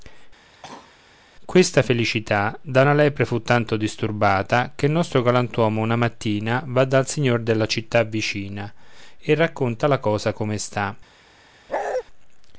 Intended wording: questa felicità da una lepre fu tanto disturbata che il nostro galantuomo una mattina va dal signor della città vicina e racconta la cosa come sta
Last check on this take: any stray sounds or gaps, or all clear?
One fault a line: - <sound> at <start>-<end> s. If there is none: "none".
- cough at 0.4-1.0 s
- bark at 11.7-12.0 s